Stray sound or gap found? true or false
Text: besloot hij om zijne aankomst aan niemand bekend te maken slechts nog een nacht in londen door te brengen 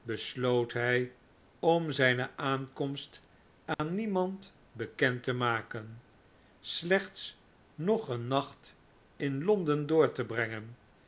true